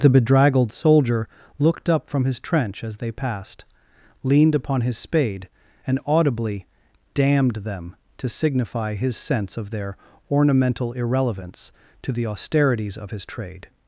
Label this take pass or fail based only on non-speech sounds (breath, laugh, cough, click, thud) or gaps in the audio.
pass